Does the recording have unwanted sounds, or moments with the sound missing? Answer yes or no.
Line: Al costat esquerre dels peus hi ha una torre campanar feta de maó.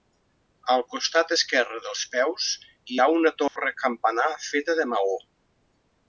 yes